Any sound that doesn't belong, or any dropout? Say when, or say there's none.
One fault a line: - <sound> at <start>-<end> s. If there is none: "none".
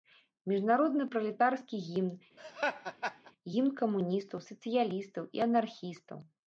- laugh at 2.4-3.3 s